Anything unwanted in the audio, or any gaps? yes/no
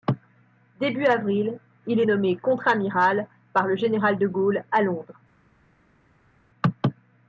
no